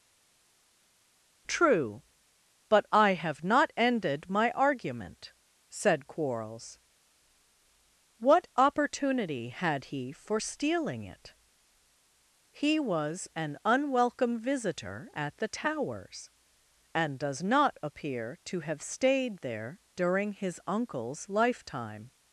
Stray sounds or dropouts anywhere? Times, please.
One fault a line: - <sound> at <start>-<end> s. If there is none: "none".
none